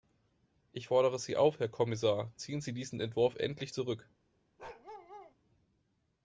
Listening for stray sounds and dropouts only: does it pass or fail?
fail